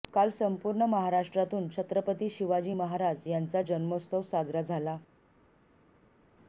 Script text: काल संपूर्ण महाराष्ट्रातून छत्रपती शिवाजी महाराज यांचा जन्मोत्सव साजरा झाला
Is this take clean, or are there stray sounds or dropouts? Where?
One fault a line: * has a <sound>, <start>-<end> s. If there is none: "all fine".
all fine